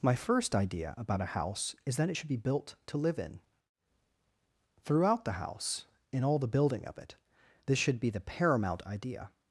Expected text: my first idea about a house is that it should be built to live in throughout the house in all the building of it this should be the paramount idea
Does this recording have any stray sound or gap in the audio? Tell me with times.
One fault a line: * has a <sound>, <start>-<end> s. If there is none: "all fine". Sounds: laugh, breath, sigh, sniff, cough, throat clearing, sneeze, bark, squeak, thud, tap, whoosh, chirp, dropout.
all fine